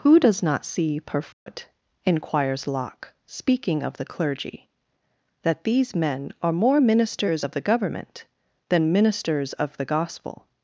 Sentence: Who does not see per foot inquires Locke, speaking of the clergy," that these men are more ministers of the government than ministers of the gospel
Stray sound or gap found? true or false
true